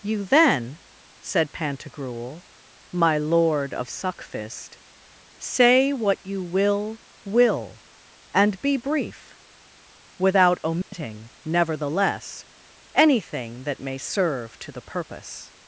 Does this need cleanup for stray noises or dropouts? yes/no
yes